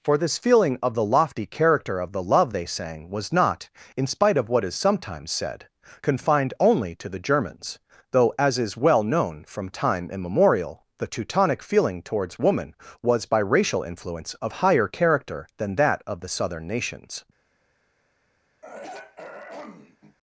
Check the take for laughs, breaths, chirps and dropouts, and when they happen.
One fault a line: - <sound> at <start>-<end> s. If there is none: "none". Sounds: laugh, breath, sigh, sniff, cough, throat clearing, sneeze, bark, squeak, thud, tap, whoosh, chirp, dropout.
- throat clearing at 18.6-20.2 s